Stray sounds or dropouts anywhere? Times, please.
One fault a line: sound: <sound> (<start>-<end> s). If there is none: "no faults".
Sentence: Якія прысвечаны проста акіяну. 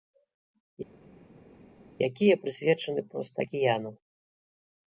no faults